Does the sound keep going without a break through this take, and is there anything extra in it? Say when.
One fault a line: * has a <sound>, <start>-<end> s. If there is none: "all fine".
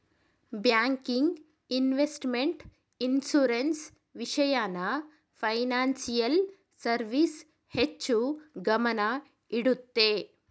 all fine